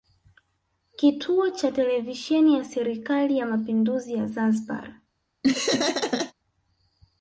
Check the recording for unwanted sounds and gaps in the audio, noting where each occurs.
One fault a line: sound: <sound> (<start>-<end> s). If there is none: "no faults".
sound: laugh (5.4-6.3 s)